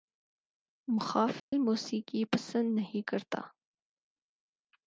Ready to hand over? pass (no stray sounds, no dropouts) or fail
fail